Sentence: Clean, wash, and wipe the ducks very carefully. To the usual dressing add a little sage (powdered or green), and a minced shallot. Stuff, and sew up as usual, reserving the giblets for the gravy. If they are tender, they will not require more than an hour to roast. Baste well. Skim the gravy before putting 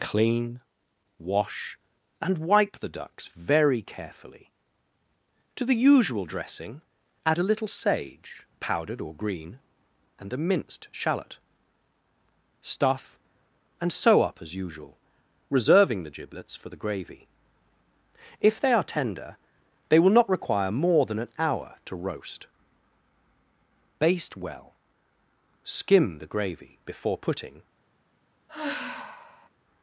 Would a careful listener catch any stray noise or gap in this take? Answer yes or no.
yes